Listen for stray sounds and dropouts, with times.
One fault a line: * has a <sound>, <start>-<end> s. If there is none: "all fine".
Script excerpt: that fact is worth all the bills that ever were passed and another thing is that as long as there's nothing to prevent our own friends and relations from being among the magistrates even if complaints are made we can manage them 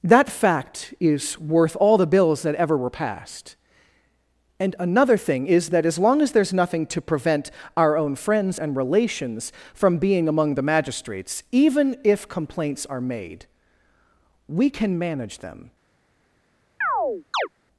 * has a chirp, 16.8-17.5 s